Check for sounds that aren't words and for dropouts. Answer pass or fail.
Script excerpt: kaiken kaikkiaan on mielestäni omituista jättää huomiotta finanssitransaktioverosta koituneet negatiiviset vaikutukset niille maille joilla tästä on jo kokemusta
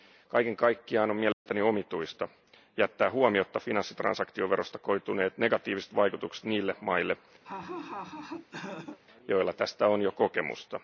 fail